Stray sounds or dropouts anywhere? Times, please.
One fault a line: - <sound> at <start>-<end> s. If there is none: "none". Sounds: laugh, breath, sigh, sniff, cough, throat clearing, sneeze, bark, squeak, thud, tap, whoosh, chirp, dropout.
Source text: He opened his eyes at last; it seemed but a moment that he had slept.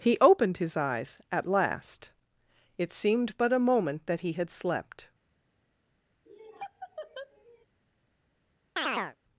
- laugh at 6.3-7.7 s
- chirp at 8.8-9.2 s